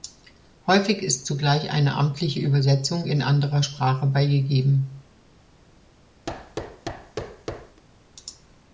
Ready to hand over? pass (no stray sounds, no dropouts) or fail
fail